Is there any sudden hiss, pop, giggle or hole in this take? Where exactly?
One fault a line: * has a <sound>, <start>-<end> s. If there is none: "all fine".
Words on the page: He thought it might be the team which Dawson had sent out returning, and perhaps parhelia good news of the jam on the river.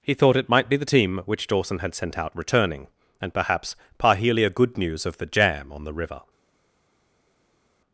all fine